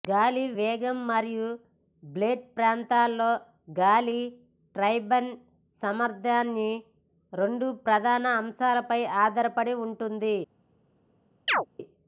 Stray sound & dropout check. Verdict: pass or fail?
fail